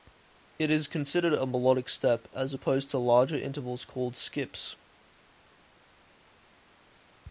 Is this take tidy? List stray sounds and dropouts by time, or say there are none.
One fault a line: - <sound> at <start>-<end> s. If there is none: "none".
none